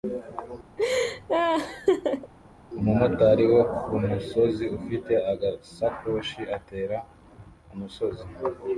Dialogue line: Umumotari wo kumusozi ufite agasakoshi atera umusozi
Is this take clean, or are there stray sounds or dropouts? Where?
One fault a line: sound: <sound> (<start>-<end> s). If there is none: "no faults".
sound: laugh (0.8-2.3 s)